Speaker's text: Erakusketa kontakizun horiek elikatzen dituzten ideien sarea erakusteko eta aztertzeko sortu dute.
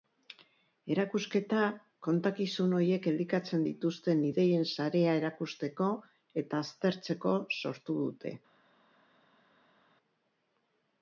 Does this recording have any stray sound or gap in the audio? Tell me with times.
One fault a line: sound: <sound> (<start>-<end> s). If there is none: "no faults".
no faults